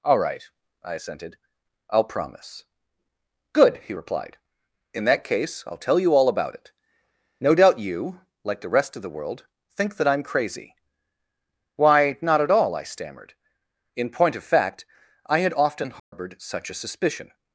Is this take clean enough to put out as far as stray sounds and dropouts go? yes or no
no